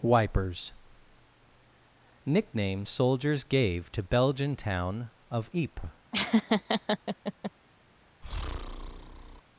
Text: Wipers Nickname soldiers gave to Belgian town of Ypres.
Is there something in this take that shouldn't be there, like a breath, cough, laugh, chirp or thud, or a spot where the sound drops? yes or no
yes